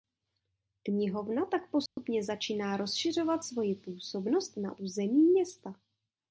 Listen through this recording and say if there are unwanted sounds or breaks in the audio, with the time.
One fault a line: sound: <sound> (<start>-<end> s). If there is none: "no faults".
sound: dropout (1.9-2.0 s)